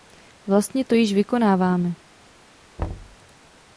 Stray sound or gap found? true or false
true